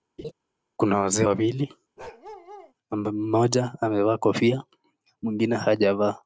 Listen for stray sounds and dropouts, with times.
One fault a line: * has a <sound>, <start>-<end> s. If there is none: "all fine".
* has a laugh, 0.2-0.3 s
* has a bark, 2.0-2.7 s